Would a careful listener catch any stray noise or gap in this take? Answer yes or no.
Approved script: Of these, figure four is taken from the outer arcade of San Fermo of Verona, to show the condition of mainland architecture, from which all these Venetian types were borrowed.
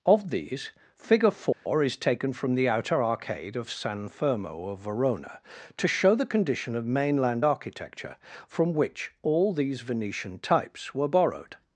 yes